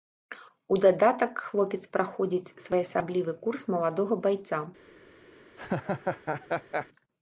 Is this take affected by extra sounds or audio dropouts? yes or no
yes